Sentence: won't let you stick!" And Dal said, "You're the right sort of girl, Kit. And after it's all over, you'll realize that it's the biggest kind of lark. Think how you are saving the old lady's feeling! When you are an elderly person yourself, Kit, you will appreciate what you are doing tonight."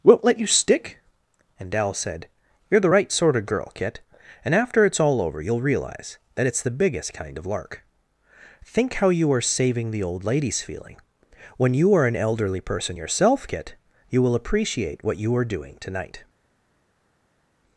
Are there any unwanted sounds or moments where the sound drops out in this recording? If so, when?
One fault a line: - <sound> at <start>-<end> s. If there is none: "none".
none